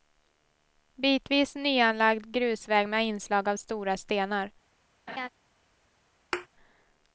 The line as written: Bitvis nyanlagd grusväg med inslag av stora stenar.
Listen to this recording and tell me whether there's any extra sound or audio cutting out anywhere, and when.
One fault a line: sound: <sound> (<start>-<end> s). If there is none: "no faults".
sound: laugh (5.1-5.3 s)
sound: thud (6.3-6.5 s)